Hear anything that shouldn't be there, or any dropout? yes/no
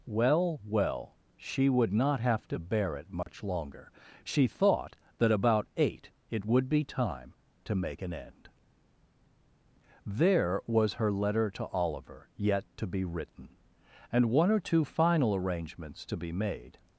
yes